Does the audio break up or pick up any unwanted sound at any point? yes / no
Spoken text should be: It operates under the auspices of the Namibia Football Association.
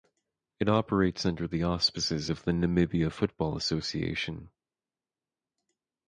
no